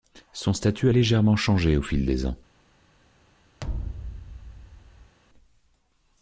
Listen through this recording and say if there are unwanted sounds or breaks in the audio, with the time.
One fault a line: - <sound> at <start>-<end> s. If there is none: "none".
- thud at 3.6-5.2 s